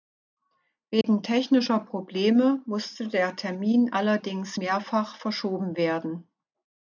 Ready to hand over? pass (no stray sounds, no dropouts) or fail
fail